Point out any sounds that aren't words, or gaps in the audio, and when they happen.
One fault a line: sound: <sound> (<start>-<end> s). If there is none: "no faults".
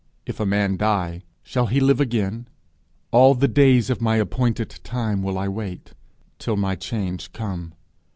no faults